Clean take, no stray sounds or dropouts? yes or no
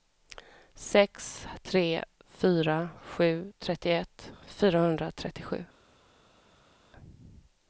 yes